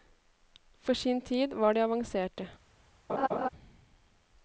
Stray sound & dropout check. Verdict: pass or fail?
fail